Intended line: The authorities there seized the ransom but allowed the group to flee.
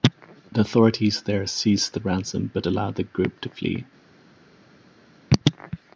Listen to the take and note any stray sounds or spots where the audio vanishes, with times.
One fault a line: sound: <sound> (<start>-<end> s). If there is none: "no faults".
no faults